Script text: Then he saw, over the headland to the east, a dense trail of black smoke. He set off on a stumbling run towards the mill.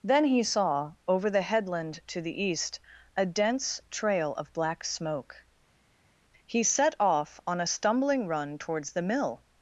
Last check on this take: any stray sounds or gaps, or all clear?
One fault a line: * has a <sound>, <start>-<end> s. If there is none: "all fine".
all fine